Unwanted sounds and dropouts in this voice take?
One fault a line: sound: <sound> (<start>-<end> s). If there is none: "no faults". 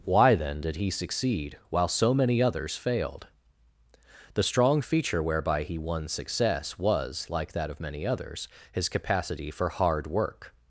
no faults